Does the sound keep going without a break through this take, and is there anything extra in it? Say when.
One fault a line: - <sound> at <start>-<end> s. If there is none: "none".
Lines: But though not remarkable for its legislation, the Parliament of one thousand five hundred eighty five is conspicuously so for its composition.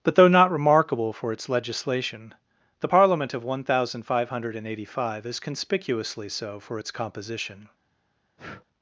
- breath at 8.4-8.7 s